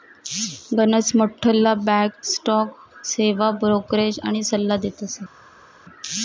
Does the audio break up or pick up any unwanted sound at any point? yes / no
no